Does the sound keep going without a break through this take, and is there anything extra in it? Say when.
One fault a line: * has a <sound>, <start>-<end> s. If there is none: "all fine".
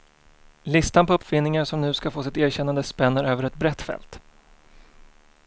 all fine